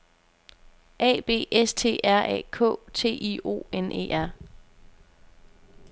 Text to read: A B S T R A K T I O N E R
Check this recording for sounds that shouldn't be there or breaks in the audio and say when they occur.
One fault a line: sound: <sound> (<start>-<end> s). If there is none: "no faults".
no faults